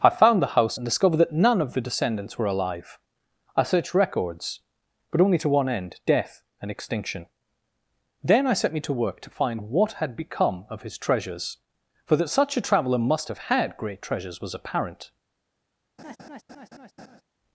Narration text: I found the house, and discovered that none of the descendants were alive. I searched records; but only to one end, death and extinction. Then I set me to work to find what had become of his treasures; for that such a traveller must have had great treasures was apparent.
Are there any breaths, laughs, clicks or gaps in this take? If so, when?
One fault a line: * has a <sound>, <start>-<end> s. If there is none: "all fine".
* has a laugh, 16.0-17.2 s